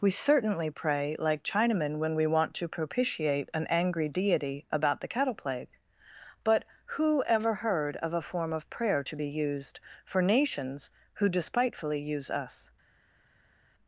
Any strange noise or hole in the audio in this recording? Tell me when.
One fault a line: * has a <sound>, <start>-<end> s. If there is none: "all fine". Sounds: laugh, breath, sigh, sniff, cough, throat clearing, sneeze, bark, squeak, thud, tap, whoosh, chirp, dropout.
all fine